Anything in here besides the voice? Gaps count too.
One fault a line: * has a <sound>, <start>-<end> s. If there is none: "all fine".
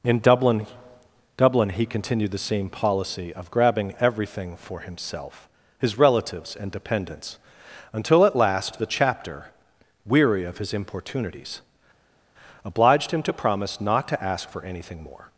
all fine